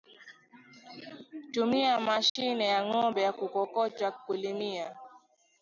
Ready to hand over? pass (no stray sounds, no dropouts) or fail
fail